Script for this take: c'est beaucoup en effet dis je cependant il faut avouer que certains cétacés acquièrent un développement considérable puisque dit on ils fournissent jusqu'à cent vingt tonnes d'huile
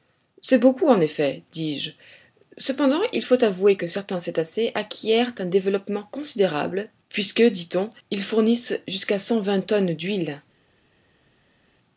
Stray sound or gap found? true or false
false